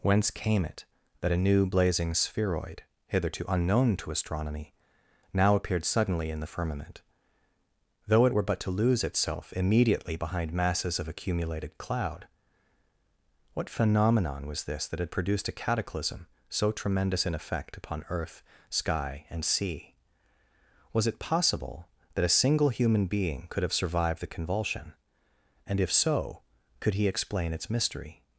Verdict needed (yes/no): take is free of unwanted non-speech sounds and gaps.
yes